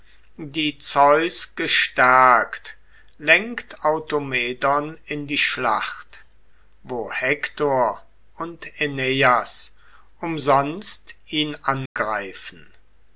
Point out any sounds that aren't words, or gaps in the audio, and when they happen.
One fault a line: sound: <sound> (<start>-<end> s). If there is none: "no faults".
sound: dropout (11.9-12.0 s)